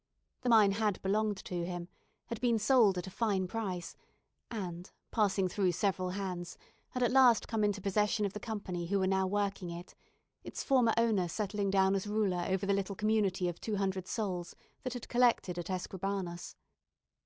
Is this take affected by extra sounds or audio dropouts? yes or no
no